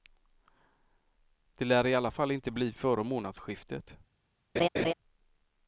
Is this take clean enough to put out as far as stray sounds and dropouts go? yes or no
no